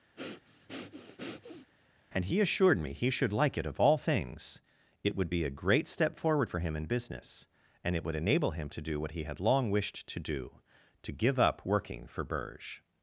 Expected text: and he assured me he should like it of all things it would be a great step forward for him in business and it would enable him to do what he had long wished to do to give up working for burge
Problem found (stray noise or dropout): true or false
true